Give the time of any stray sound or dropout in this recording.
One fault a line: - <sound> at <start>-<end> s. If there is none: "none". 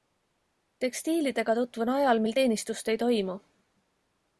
none